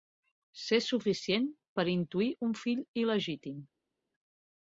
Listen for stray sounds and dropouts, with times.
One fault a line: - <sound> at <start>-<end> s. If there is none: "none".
none